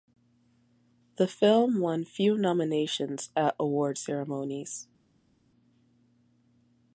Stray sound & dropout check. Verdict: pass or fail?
pass